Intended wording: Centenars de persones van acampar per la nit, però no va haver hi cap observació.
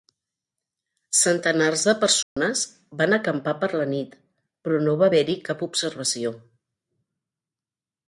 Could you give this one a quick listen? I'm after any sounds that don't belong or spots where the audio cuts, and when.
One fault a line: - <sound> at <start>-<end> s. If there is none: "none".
- dropout at 2.2-2.4 s